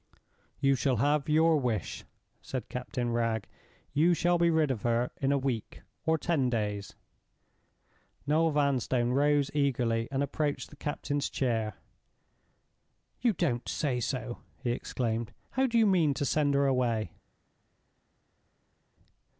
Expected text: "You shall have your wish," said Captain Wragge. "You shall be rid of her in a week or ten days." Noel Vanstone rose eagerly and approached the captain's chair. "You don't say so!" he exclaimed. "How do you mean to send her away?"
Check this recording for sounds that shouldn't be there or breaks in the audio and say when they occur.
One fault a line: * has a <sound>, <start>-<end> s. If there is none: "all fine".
all fine